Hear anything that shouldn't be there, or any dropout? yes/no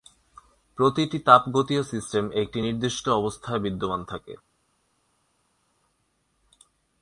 no